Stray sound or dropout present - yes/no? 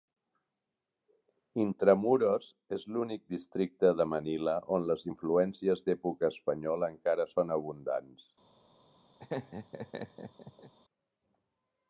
yes